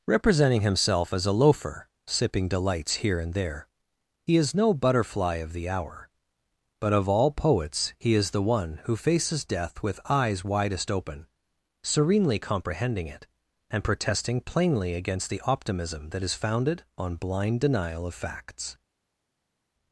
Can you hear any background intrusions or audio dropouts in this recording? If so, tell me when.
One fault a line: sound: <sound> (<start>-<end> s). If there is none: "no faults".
no faults